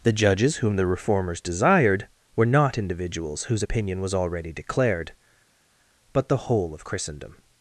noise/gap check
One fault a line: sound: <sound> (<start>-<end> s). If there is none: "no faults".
no faults